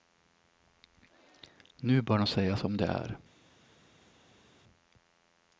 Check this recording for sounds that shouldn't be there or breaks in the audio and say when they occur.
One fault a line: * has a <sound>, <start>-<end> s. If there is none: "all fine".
all fine